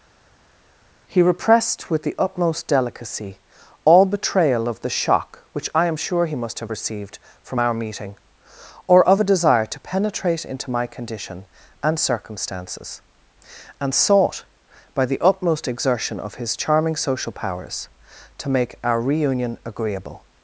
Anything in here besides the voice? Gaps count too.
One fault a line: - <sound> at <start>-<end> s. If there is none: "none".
none